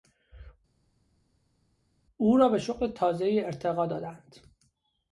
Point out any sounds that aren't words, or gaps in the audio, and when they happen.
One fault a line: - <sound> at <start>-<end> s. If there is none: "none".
none